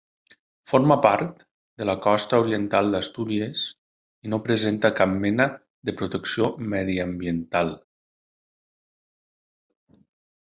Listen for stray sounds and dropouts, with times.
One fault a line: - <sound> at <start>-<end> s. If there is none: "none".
none